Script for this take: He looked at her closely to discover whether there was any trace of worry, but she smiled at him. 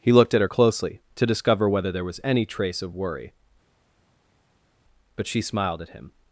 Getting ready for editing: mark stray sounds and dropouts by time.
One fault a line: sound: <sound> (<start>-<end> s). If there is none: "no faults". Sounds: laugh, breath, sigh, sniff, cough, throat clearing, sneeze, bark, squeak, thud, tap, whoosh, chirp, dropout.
no faults